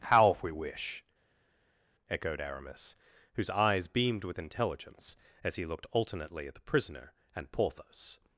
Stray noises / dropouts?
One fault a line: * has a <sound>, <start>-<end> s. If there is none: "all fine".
all fine